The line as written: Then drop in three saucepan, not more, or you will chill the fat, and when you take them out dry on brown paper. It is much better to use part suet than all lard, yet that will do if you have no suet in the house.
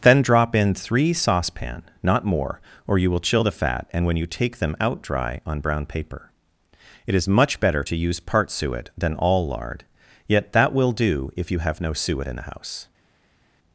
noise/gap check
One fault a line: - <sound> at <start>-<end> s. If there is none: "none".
none